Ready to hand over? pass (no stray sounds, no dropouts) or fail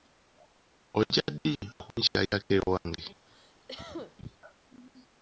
fail